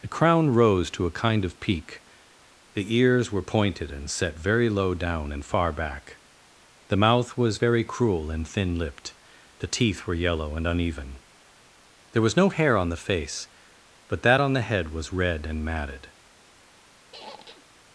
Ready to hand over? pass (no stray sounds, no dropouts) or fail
fail